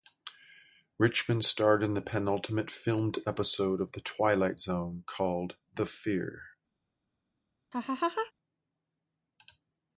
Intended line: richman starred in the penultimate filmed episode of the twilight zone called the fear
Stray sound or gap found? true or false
true